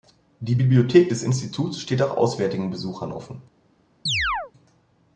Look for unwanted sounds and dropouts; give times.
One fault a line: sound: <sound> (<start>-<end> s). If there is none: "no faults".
sound: chirp (4.1-4.5 s)